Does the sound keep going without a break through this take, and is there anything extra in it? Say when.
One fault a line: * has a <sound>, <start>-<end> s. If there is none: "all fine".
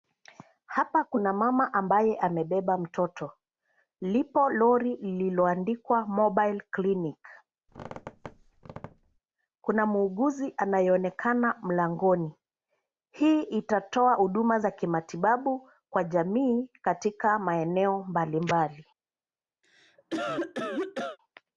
* has a squeak, 7.7-9.2 s
* has a cough, 19.6-21.2 s